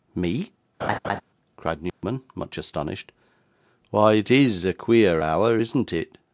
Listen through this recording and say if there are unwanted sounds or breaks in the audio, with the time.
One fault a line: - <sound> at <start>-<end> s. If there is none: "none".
- laugh at 0.8-1.2 s
- dropout at 1.9-2.0 s